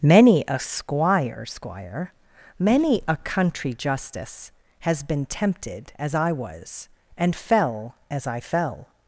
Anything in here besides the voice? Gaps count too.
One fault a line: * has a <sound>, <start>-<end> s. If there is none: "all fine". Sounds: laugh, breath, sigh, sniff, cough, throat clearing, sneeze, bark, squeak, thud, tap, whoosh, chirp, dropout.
all fine